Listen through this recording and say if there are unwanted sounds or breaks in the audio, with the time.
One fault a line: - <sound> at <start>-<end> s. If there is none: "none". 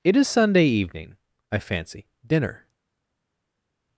none